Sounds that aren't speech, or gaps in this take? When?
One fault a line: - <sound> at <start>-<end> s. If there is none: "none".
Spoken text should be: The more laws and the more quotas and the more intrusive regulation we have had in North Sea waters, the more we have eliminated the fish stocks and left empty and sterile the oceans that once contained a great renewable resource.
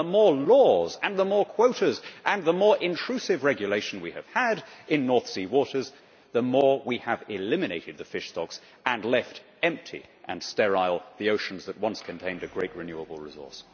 none